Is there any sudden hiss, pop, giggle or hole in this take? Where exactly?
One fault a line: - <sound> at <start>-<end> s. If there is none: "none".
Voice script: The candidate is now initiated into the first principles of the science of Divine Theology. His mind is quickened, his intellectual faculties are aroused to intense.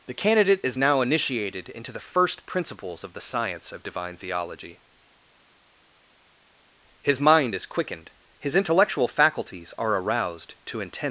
none